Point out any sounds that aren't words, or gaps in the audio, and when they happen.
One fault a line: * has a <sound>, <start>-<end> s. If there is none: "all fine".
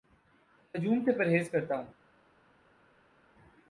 all fine